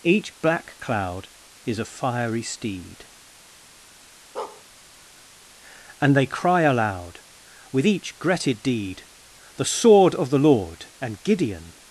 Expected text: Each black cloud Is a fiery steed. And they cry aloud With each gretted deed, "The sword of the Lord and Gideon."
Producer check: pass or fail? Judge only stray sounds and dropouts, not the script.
fail